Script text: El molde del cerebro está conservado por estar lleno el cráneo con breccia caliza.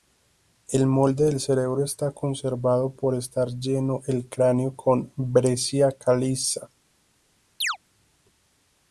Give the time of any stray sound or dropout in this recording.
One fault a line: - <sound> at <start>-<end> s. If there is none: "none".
- chirp at 7.6-7.8 s